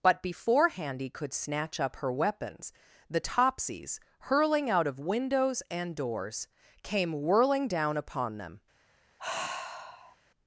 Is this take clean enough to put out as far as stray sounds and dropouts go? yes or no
no